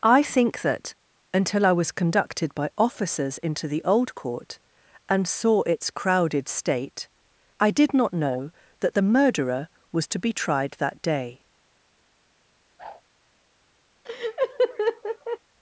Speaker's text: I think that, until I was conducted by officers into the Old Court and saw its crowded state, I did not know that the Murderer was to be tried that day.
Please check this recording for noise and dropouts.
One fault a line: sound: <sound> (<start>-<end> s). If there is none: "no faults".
sound: whoosh (12.8-13.0 s)
sound: laugh (14.0-15.4 s)